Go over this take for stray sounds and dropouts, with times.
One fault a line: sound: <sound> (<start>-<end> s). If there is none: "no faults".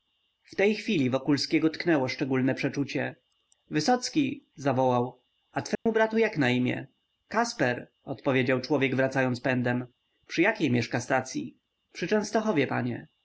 sound: dropout (5.7-5.9 s)